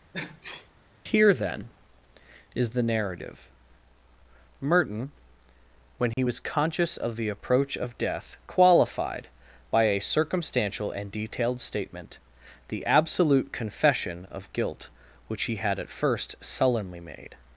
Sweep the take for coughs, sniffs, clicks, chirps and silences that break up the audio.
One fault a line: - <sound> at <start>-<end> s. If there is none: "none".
- sneeze at 0.1-0.7 s
- dropout at 6.1-6.2 s